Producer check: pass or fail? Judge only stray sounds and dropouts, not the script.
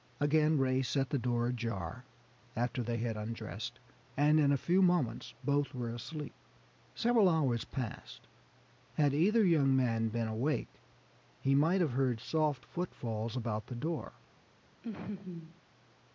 fail